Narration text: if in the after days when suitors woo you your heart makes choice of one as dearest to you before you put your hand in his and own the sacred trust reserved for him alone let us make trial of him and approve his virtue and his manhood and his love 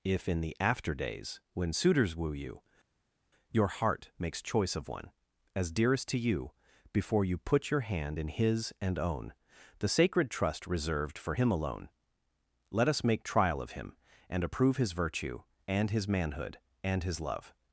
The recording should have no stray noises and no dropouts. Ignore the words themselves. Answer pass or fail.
pass